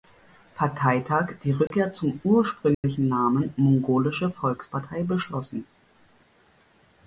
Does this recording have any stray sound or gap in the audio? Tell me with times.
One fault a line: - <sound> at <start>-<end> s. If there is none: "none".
- dropout at 1.7-1.7 s
- dropout at 2.7-2.8 s